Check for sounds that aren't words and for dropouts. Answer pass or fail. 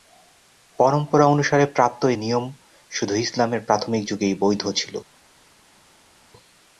pass